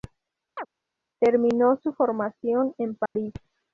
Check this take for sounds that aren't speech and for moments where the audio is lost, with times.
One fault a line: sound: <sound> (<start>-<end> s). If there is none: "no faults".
sound: chirp (0.6-0.7 s)
sound: dropout (3.1-3.2 s)